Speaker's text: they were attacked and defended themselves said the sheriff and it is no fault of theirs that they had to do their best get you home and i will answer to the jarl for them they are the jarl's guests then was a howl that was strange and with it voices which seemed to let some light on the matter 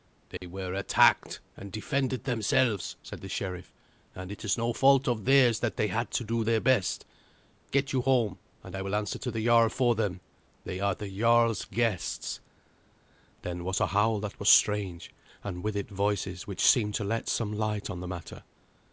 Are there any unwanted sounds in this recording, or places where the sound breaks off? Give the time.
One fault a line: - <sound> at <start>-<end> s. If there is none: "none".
- dropout at 0.4-0.4 s